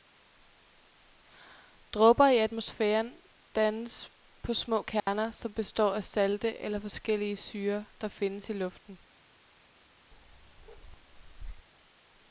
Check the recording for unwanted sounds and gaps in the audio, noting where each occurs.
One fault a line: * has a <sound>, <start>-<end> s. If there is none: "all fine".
* has a dropout, 5.0-5.1 s
* has a bark, 10.1-11.7 s